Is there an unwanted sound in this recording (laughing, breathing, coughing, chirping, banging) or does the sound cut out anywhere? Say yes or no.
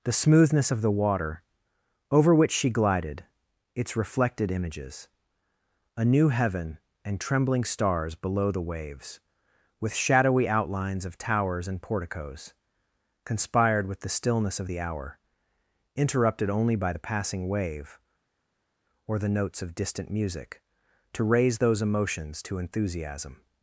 no